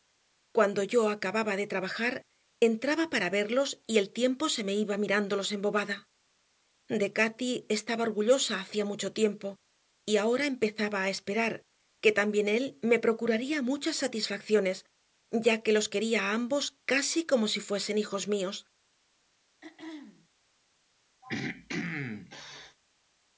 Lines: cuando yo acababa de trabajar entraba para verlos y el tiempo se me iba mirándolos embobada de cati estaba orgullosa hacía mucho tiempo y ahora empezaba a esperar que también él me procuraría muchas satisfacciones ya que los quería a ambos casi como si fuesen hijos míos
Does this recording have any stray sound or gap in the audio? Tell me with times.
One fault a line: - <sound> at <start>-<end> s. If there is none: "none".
- throat clearing at 19.6-20.3 s
- throat clearing at 21.2-22.8 s